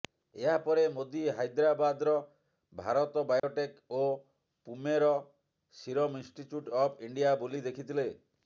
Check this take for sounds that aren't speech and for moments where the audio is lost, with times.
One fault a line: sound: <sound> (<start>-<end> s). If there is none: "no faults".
sound: dropout (3.4-3.4 s)